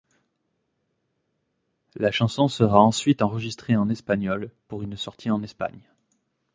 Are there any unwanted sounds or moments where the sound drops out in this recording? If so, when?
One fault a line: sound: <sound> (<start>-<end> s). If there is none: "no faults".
no faults